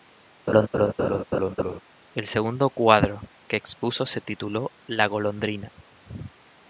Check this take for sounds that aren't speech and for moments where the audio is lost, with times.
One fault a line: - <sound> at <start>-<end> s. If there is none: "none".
- laugh at 0.5-1.8 s